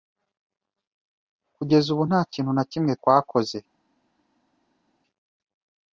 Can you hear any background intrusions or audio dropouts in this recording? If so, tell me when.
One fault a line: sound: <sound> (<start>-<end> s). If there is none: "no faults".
no faults